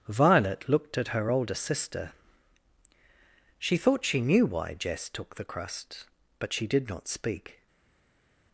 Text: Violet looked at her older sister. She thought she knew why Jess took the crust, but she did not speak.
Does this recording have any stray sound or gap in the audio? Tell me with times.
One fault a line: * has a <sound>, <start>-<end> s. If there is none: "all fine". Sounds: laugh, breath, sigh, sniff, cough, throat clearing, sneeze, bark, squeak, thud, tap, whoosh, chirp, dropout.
all fine